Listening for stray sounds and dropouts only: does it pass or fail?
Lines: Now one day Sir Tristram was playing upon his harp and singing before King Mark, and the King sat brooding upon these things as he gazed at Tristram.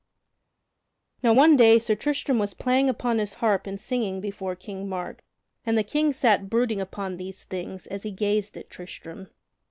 pass